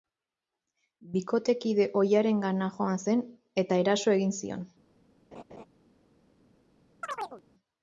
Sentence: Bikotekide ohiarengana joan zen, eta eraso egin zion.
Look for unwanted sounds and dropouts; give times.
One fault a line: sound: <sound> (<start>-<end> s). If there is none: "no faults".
sound: laugh (5.3-5.7 s)
sound: chirp (7.0-7.4 s)